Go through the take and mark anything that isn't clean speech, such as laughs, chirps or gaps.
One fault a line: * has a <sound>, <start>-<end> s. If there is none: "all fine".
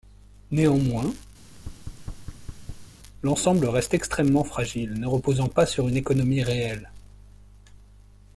* has a thud, 1.4-2.9 s